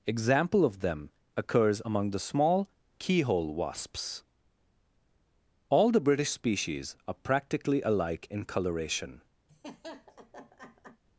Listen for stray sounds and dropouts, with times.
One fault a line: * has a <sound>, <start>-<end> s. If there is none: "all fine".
* has a laugh, 9.5-11.0 s